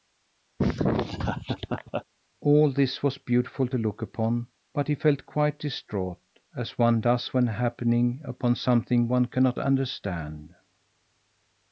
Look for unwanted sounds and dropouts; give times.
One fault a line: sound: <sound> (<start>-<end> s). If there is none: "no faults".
sound: laugh (0.6-2.0 s)